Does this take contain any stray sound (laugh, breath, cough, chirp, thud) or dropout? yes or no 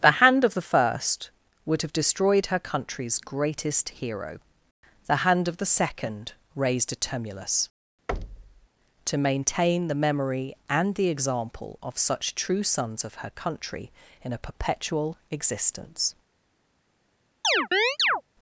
yes